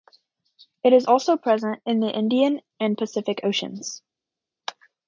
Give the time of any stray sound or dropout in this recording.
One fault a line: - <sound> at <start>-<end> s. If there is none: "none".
none